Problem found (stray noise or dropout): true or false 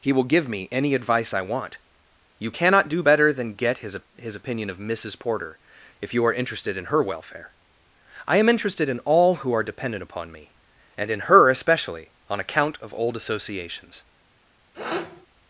true